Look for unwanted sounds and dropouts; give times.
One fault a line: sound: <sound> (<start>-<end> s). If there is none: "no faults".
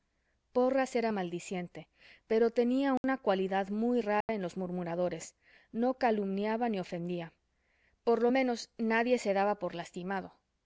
sound: dropout (3.0-3.0 s)
sound: dropout (4.2-4.3 s)